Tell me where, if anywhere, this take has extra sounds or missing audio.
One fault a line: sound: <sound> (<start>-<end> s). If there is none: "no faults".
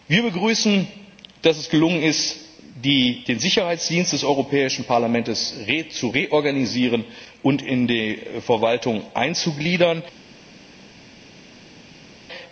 no faults